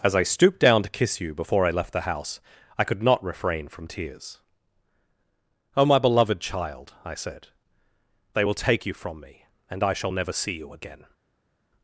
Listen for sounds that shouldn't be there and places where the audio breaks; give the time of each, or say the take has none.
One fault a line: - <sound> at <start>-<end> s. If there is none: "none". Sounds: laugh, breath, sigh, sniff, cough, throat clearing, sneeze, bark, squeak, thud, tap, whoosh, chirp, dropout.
none